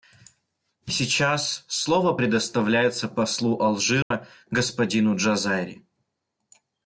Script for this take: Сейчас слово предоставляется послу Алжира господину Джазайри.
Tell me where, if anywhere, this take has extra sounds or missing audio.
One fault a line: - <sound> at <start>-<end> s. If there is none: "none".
- dropout at 4.0-4.1 s